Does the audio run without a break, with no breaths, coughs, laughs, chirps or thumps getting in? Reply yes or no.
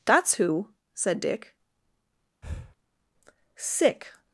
no